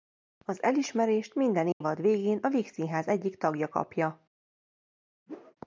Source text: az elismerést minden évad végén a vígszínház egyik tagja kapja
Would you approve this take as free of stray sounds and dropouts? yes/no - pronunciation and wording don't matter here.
no